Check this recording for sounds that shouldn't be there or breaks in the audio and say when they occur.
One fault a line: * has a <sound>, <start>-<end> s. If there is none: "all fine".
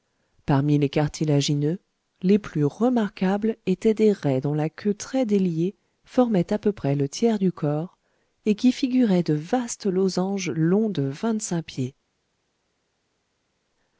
all fine